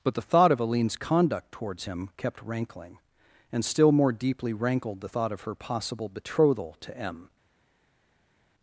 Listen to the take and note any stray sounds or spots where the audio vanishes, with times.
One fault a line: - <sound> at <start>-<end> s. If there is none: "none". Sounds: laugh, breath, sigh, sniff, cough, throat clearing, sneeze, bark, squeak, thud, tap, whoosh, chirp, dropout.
none